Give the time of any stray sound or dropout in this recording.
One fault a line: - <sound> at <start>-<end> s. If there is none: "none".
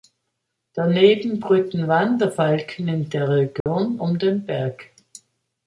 - dropout at 3.6-3.7 s